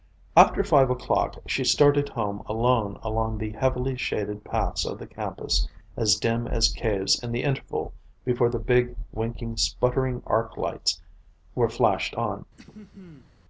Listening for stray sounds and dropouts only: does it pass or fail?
fail